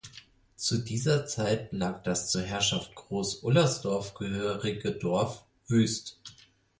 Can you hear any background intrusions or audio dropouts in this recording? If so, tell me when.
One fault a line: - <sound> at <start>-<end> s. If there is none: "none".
none